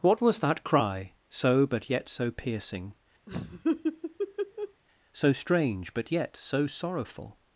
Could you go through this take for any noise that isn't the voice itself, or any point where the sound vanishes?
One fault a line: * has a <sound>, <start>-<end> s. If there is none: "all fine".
* has a laugh, 3.3-4.8 s